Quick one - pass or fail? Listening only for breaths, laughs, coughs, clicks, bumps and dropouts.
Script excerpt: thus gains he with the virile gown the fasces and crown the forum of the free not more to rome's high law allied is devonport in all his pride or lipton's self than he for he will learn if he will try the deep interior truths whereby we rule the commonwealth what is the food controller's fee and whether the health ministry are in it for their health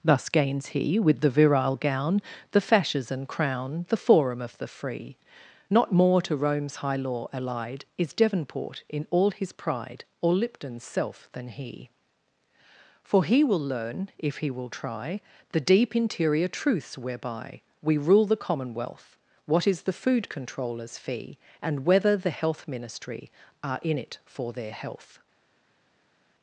pass